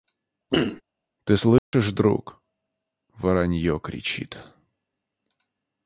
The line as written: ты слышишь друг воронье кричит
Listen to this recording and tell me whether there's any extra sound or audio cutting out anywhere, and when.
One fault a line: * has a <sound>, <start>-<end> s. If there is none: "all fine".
* has a throat clearing, 0.5-0.8 s
* has a dropout, 1.6-1.7 s